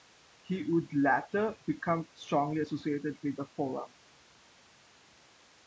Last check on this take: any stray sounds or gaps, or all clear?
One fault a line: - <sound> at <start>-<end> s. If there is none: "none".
none